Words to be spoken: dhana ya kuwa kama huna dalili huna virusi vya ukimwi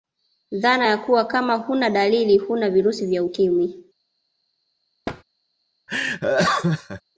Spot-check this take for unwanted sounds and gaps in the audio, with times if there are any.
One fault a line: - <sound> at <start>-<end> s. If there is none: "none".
- thud at 5.1-5.2 s
- laugh at 5.9-7.0 s